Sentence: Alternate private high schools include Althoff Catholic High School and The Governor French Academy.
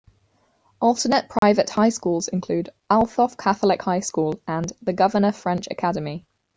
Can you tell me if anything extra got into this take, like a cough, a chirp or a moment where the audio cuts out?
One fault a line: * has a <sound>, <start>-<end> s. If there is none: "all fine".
* has a dropout, 1.4-1.4 s